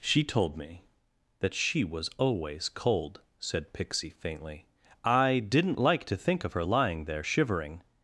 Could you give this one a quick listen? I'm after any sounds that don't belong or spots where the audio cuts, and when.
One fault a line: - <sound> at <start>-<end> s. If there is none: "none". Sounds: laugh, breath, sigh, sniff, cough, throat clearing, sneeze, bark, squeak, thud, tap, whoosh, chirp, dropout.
none